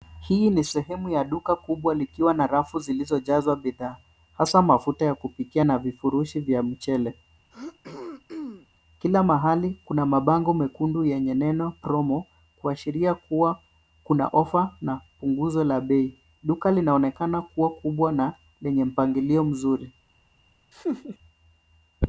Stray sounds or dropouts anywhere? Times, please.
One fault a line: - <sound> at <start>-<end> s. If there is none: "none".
- throat clearing at 7.5-8.7 s
- laugh at 20.7-21.2 s